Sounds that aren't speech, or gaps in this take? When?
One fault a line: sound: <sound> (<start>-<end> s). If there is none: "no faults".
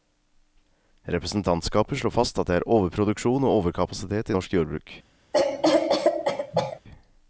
sound: cough (5.3-6.8 s)